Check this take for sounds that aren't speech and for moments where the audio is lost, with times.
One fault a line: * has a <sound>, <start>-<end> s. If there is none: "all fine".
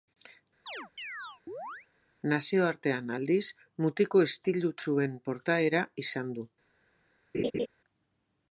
* has a chirp, 0.7-1.9 s
* has a laugh, 7.3-7.7 s